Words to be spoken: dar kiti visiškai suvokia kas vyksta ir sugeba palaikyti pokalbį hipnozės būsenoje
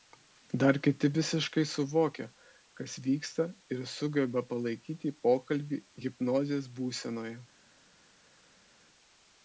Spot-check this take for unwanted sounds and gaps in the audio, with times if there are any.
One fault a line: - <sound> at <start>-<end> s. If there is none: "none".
none